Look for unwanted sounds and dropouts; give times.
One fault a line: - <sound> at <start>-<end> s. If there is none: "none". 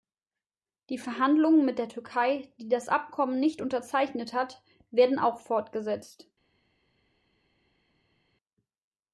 none